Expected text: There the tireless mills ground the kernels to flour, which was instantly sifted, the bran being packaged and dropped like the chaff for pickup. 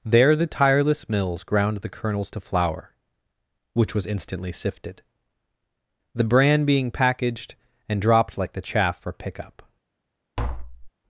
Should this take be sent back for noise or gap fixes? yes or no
yes